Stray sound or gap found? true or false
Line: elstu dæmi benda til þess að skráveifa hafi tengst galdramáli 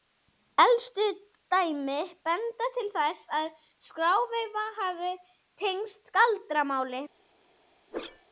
true